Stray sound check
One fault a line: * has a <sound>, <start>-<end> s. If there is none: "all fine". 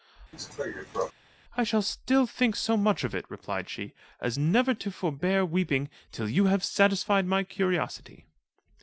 * has a cough, 0.3-1.1 s